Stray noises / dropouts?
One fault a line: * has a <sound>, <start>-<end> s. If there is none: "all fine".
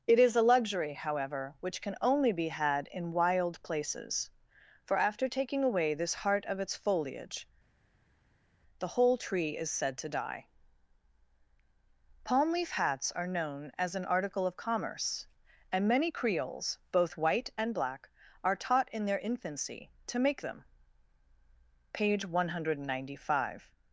all fine